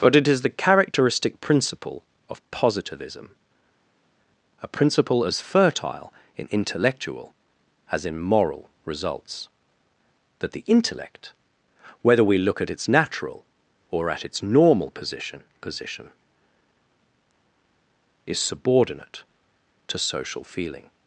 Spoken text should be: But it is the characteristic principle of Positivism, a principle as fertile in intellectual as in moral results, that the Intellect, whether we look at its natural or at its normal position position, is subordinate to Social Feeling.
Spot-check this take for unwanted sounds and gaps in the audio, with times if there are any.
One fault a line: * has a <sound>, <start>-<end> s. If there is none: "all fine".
all fine